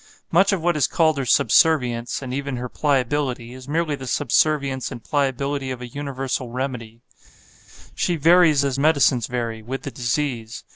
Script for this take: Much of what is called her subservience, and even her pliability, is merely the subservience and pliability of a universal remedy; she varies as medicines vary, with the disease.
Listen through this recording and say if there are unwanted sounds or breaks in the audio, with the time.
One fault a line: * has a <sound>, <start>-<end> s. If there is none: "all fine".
all fine